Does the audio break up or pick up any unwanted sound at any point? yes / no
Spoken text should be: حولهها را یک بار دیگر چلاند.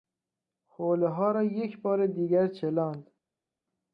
no